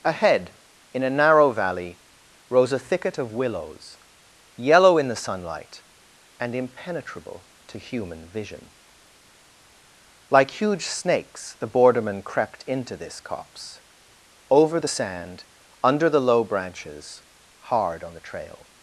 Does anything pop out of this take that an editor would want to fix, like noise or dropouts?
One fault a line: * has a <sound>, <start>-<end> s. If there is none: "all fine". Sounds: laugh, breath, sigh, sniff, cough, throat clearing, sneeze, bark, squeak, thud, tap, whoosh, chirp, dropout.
all fine